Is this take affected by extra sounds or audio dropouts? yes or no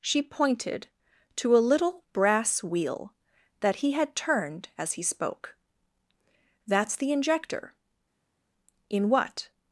no